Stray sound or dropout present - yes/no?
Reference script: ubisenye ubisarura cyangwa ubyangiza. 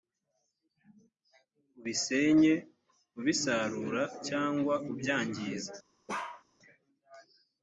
yes